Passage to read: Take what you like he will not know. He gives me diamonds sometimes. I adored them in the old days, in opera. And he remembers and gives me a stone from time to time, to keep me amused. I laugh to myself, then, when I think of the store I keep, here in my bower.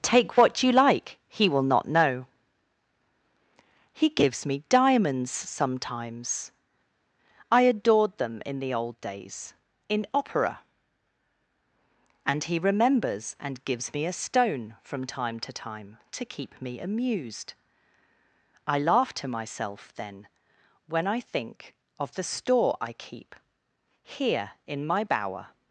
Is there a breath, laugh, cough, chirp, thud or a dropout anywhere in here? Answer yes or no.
no